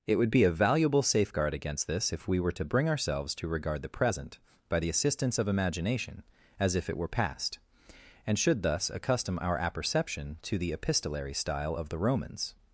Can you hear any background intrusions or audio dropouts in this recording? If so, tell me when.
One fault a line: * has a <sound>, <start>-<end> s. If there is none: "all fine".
all fine